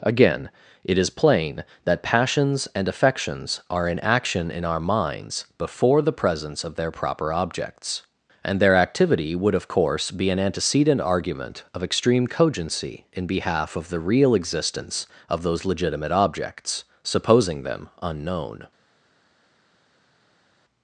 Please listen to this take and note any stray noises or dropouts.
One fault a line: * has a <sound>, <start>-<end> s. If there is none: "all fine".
all fine